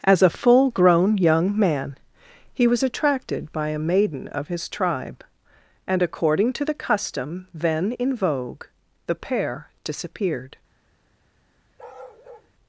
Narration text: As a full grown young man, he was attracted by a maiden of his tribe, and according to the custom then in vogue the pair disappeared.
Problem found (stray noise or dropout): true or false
true